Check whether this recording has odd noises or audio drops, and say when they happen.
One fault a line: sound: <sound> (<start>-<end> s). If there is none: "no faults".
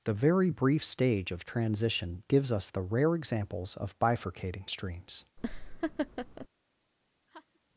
sound: laugh (5.4-6.5 s)
sound: laugh (7.3-7.6 s)